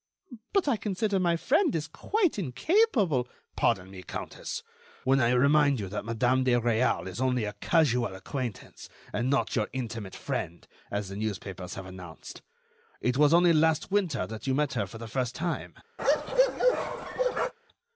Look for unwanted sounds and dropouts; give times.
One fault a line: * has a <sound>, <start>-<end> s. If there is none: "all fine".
* has a bark, 16.0-17.5 s